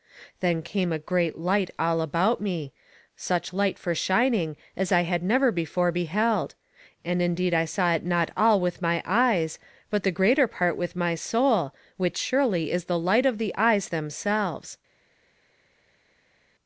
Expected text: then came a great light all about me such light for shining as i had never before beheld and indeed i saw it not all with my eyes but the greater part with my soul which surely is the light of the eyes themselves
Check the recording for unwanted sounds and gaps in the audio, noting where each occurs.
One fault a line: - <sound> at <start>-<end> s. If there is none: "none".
none